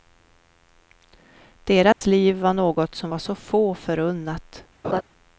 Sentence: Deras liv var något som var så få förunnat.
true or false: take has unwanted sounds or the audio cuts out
true